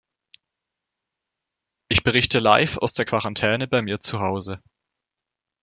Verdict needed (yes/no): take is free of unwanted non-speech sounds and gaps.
yes